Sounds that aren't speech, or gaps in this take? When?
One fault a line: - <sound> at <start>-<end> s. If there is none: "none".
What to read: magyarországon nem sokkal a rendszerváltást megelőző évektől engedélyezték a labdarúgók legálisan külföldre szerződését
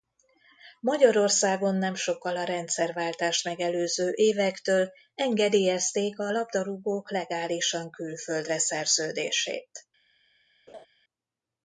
- laugh at 10.7-10.9 s